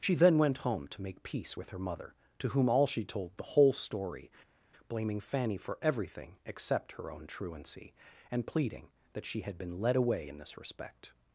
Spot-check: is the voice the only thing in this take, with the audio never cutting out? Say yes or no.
yes